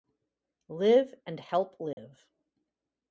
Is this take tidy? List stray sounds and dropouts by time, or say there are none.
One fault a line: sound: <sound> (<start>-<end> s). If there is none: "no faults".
sound: dropout (1.9-2.0 s)